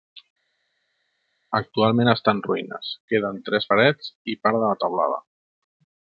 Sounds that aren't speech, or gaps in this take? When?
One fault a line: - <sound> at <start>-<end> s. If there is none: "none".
none